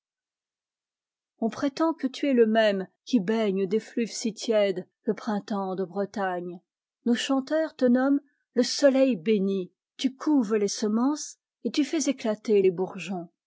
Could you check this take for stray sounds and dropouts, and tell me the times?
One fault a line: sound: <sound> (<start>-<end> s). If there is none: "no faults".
no faults